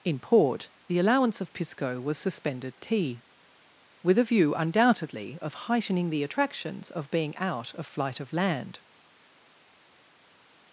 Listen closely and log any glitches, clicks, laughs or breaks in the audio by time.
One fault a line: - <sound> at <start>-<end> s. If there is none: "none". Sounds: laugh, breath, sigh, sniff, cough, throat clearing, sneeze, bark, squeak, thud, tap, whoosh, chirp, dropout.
none